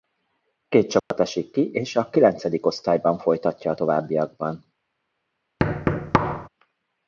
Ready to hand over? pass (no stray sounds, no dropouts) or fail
fail